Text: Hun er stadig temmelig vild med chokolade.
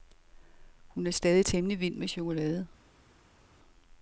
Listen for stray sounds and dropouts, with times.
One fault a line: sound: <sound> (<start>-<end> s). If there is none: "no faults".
no faults